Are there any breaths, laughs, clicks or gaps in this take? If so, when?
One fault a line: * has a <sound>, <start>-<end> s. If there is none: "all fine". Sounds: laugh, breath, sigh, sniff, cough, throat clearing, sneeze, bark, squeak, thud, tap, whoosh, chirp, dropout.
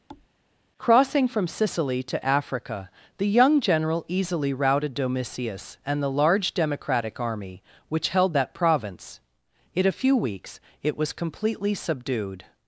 * has a thud, 0.1-0.3 s